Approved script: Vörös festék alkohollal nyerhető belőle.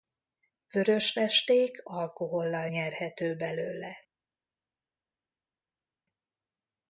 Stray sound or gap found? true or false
false